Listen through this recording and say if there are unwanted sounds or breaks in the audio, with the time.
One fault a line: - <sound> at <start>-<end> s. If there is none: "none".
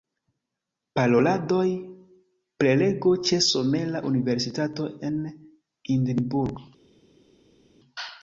none